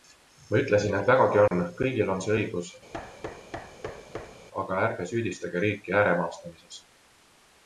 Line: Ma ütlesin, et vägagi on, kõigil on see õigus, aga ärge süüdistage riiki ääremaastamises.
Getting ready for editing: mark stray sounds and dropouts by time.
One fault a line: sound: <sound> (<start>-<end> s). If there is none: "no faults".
sound: dropout (1.5-1.5 s)
sound: thud (2.9-4.5 s)